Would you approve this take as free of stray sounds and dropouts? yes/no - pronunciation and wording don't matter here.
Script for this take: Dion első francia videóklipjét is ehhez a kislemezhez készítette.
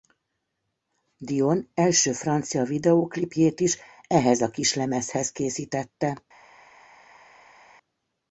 yes